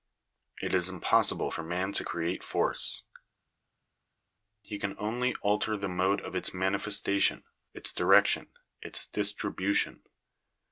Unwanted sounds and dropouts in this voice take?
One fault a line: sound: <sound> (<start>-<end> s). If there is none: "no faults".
no faults